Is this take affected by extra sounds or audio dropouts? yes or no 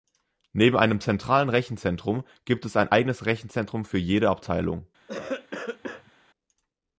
yes